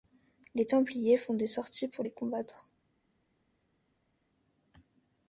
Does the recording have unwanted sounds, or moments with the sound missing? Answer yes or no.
no